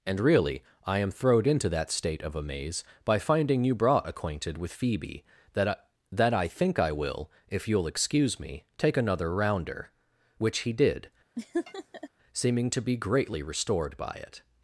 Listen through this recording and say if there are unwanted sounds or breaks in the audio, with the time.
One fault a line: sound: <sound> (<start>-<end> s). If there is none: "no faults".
sound: laugh (11.4-12.1 s)